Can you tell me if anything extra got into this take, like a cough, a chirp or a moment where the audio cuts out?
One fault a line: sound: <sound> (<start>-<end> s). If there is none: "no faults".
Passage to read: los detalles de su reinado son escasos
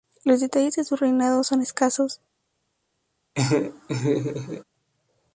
sound: laugh (3.4-4.6 s)